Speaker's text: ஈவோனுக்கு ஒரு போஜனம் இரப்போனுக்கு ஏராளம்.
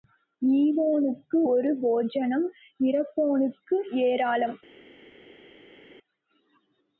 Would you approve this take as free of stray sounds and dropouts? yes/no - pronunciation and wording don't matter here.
yes